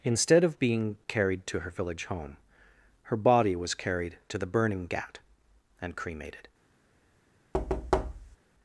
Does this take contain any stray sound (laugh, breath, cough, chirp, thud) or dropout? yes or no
yes